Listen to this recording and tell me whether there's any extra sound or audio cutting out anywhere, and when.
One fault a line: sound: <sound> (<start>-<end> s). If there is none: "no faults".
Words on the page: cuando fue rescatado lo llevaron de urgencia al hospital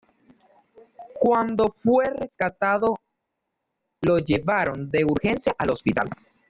no faults